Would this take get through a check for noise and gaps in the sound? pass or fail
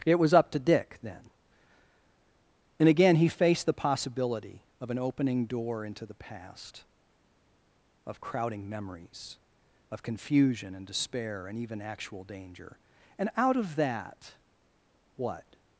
pass